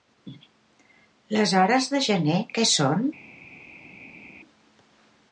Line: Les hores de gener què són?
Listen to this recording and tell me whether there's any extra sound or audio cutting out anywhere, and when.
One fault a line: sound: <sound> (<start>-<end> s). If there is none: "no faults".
no faults